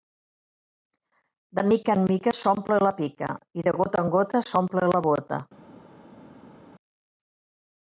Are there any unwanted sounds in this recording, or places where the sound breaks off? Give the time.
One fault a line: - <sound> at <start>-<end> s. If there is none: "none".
none